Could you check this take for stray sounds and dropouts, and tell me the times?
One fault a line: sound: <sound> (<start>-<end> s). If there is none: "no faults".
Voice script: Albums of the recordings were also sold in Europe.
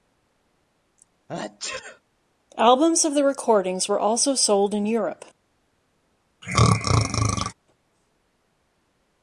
sound: sneeze (1.3-2.0 s)
sound: throat clearing (6.4-7.5 s)